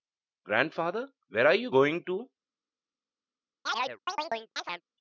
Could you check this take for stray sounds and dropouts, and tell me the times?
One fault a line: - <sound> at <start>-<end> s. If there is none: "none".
- chirp at 3.7-4.8 s